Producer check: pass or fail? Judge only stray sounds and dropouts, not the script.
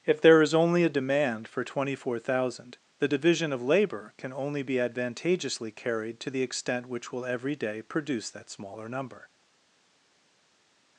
pass